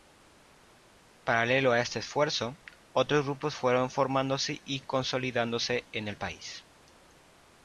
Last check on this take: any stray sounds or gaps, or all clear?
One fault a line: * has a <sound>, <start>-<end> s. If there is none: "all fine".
all fine